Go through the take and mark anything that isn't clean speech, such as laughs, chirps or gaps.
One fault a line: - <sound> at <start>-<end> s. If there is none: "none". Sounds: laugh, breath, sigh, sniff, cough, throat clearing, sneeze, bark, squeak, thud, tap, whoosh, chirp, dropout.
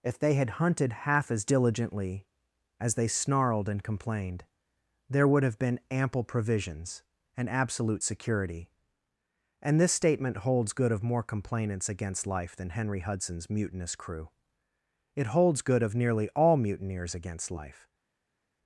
none